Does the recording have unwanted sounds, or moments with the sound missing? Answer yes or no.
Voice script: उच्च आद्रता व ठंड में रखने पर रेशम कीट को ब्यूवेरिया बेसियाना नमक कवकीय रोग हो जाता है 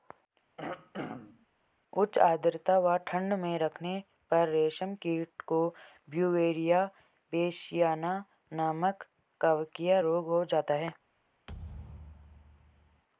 yes